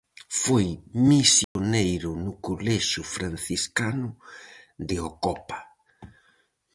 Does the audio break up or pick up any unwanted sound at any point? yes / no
yes